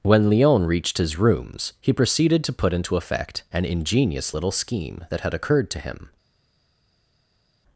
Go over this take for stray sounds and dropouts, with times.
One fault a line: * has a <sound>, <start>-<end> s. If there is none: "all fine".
all fine